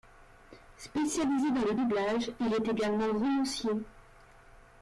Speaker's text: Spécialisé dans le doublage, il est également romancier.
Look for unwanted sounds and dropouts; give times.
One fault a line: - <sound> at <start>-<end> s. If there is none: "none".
none